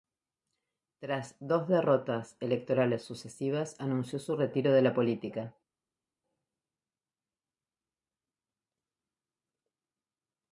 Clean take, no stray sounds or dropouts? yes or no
yes